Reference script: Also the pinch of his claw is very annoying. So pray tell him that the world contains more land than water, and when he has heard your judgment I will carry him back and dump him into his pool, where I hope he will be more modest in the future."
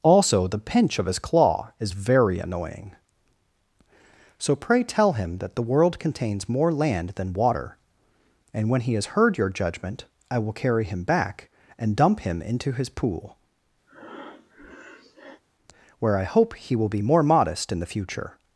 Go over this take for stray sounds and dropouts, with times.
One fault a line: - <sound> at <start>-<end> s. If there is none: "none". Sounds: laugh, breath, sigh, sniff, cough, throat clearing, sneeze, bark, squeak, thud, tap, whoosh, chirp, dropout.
- breath at 13.9-15.4 s